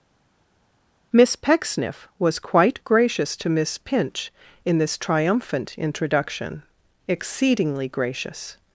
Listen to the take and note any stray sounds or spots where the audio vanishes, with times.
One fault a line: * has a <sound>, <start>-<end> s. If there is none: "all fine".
all fine